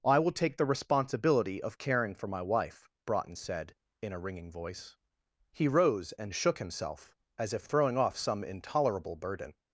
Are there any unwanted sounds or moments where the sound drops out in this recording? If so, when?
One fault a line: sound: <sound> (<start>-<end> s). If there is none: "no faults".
no faults